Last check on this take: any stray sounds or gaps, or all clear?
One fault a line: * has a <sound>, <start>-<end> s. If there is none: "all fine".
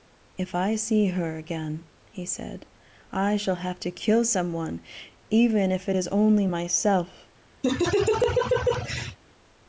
* has a laugh, 7.6-9.2 s